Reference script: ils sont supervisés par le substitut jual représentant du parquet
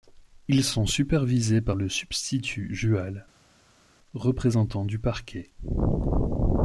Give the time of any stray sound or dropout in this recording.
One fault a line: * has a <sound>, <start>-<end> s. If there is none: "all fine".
all fine